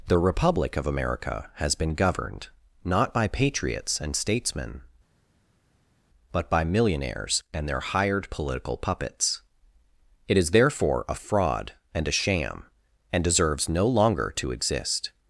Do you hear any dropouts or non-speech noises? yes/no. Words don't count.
no